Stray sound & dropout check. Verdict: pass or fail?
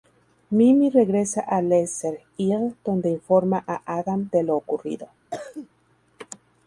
fail